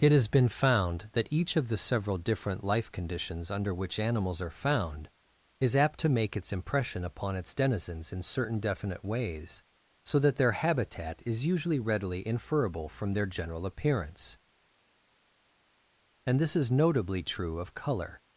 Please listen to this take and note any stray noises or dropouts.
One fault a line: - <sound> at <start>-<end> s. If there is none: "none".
none